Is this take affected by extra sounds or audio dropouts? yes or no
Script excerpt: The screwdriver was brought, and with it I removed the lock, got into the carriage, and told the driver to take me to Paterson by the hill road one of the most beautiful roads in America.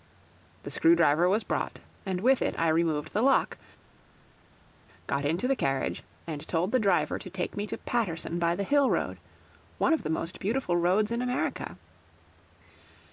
no